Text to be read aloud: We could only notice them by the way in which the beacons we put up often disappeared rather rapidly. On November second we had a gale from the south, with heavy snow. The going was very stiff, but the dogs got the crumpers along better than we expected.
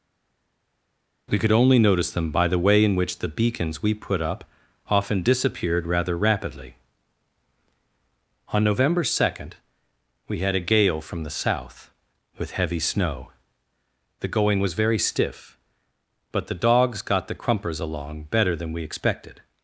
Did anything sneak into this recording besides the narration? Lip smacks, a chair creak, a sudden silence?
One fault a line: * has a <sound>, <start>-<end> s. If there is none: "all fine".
all fine